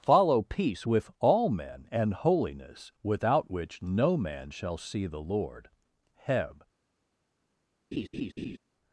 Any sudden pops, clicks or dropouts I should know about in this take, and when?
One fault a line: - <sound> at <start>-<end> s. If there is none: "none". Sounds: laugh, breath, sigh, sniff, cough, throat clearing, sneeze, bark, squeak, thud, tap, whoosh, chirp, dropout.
- laugh at 7.9-8.6 s